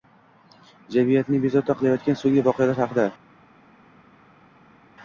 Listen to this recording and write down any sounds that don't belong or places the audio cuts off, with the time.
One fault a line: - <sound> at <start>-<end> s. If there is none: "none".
none